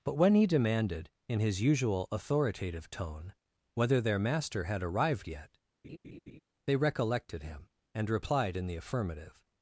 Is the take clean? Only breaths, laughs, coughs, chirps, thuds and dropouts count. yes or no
no